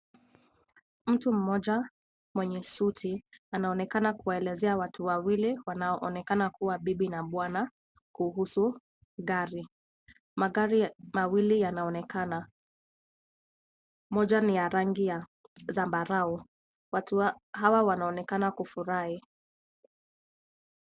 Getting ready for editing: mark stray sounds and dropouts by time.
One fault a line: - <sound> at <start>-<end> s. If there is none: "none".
none